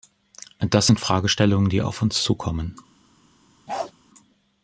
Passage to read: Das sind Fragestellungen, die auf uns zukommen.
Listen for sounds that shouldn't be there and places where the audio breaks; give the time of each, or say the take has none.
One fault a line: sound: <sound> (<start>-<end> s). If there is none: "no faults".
sound: bark (3.7-3.9 s)